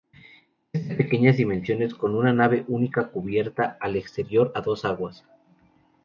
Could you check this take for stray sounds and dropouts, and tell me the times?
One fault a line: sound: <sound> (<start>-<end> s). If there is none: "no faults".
no faults